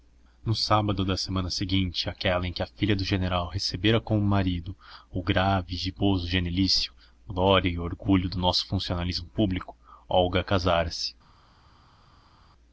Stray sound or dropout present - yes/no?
no